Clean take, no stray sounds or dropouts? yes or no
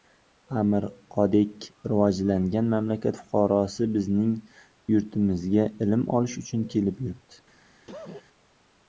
no